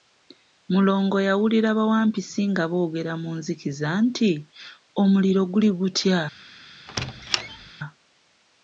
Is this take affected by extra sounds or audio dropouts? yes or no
yes